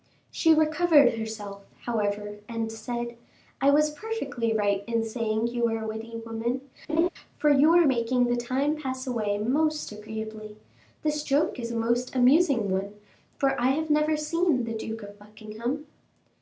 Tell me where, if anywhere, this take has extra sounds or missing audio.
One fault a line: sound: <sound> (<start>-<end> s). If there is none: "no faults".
sound: laugh (6.9-7.1 s)